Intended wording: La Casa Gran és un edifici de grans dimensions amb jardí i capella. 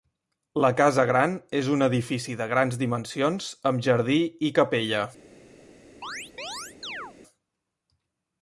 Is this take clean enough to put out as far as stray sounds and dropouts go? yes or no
no